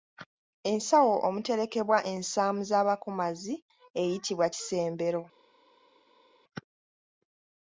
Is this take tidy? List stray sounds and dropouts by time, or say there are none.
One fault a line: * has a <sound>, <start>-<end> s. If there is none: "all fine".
all fine